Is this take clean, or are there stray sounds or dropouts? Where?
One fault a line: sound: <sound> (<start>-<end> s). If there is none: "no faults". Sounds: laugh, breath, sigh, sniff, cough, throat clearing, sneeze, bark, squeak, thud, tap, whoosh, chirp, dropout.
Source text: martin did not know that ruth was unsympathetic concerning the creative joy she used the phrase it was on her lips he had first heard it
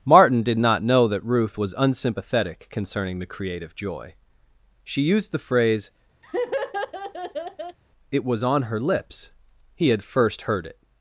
sound: laugh (6.2-7.8 s)